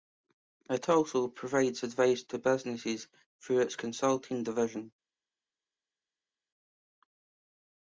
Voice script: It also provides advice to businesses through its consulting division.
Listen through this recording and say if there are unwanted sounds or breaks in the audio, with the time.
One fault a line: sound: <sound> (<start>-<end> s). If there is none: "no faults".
no faults